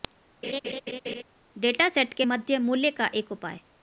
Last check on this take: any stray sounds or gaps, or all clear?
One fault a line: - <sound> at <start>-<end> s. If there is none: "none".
- laugh at 0.4-1.2 s